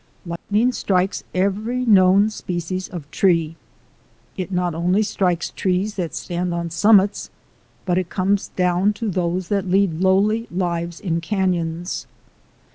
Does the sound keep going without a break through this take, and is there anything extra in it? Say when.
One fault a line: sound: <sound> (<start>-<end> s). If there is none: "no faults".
sound: dropout (0.4-0.5 s)